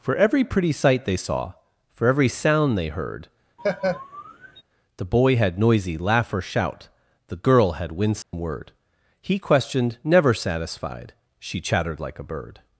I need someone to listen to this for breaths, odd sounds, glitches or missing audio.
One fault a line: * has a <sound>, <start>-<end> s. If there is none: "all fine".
* has a laugh, 3.6-4.6 s
* has a dropout, 8.2-8.3 s